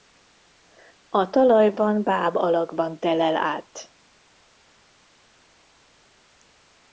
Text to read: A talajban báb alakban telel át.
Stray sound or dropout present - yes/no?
no